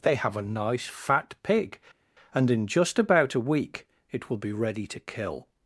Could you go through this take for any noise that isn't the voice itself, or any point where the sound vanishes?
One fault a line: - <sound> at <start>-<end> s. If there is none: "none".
none